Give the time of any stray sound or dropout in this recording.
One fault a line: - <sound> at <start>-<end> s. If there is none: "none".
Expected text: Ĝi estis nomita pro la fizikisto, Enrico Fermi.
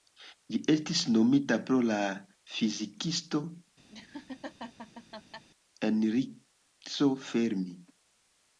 - laugh at 3.9-5.5 s